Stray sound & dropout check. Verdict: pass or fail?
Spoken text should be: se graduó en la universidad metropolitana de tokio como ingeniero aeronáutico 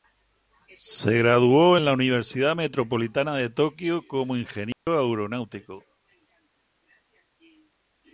fail